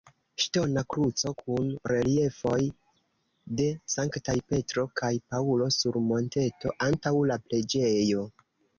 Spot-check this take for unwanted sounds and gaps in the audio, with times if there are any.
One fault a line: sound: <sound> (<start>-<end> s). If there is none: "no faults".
no faults